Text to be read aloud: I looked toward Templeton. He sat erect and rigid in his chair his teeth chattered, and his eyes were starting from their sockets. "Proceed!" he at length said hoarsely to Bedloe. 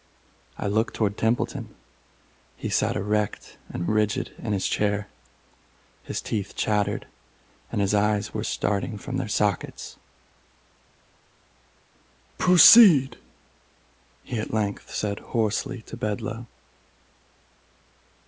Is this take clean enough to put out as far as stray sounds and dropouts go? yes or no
yes